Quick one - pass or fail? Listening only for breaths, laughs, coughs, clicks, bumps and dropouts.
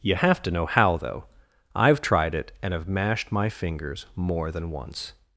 pass